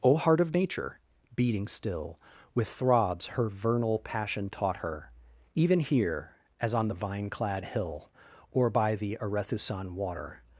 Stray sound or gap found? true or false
false